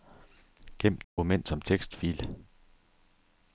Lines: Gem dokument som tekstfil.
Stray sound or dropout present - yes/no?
yes